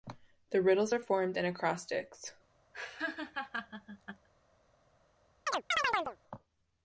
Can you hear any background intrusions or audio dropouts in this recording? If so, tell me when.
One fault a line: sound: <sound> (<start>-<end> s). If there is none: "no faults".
sound: laugh (2.7-4.3 s)
sound: chirp (5.5-6.2 s)